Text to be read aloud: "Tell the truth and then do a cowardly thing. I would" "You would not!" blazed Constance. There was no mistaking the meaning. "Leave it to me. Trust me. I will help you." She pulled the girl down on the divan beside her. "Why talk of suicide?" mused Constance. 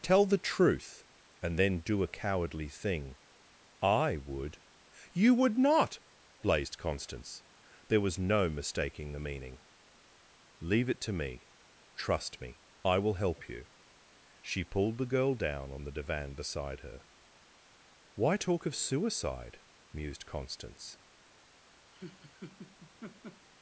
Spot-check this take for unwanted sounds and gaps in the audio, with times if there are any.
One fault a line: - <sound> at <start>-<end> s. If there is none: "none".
- laugh at 21.9-23.5 s